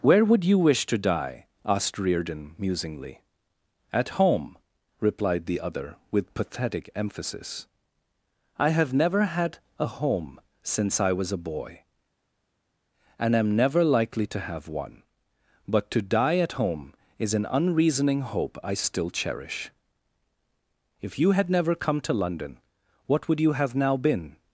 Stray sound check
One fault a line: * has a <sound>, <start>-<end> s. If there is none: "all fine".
all fine